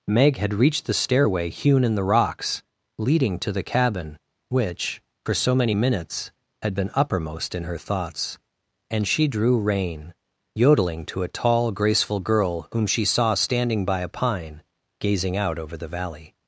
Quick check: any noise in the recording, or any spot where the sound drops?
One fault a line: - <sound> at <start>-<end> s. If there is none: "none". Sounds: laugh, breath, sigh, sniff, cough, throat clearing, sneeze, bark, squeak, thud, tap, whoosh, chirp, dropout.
none